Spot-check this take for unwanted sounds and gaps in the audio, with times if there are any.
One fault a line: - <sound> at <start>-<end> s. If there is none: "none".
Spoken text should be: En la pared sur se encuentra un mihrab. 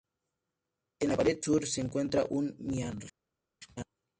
none